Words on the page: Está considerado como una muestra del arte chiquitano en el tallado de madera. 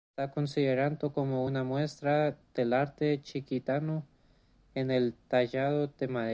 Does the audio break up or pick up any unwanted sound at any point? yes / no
no